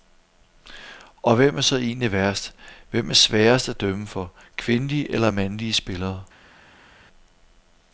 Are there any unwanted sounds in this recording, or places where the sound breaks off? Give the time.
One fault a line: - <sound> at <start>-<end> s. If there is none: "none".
none